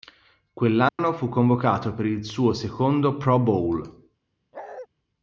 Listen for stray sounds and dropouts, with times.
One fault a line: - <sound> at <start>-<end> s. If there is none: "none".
- dropout at 0.9-1.0 s
- bark at 4.5-4.9 s